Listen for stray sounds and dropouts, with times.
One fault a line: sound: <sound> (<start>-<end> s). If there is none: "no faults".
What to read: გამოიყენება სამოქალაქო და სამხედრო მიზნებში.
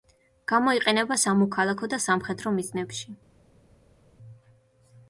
no faults